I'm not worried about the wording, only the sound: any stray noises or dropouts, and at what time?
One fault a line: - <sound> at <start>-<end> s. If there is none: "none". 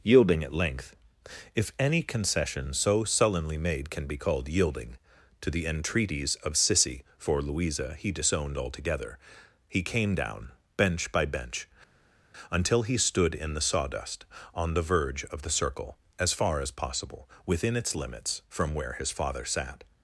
none